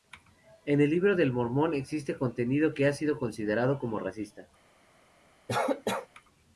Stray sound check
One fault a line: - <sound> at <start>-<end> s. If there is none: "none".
- cough at 5.5-6.1 s